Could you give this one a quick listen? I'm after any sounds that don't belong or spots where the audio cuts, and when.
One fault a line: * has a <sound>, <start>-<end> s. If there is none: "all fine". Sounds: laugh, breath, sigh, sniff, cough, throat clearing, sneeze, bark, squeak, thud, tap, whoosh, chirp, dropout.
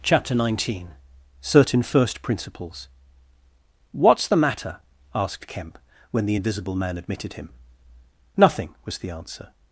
all fine